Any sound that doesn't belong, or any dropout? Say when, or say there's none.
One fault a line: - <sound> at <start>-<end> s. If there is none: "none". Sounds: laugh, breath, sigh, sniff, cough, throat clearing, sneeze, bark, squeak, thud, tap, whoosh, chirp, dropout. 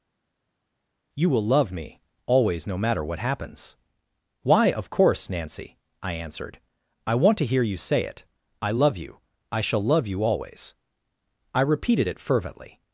none